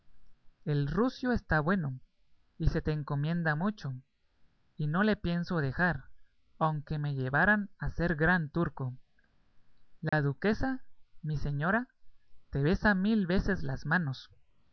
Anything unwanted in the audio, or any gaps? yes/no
yes